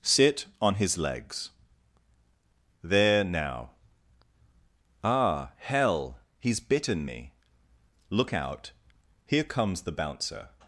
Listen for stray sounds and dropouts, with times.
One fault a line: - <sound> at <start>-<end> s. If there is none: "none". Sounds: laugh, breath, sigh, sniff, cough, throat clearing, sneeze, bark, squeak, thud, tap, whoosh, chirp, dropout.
none